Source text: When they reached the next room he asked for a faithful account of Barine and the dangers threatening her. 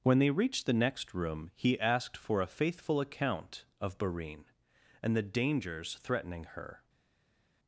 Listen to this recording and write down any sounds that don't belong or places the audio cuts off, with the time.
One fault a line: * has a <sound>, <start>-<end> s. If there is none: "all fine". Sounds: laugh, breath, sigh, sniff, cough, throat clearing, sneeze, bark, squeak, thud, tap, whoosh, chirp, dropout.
all fine